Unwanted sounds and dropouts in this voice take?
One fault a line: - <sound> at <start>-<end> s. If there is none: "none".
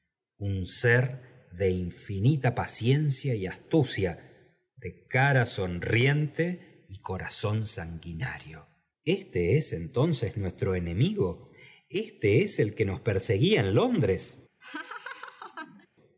- laugh at 14.6-15.9 s